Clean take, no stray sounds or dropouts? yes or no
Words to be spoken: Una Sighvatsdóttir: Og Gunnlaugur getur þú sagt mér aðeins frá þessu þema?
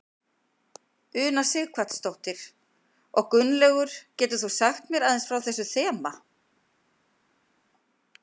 yes